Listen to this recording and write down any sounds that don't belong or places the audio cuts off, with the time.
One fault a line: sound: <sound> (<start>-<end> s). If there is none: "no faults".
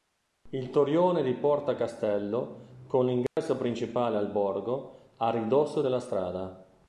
sound: dropout (3.3-3.4 s)